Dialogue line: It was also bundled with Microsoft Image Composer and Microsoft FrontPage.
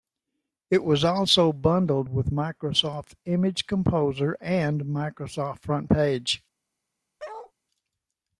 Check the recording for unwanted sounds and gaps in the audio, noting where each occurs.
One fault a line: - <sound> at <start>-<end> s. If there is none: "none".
- bark at 7.2-7.5 s